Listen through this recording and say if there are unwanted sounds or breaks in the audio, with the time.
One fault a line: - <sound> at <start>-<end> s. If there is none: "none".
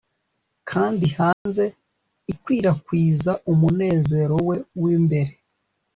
- dropout at 1.3-1.5 s